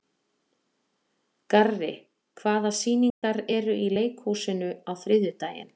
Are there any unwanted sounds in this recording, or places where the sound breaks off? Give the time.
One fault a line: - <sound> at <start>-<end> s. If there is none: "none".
- dropout at 3.1-3.2 s